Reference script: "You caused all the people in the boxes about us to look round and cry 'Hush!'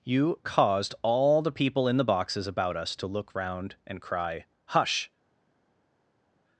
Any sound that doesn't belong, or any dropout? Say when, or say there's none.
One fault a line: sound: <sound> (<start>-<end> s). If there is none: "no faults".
no faults